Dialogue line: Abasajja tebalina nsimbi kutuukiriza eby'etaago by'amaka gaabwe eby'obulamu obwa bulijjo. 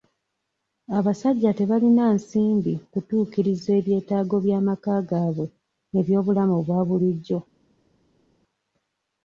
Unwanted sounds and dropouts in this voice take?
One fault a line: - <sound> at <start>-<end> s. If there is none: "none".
none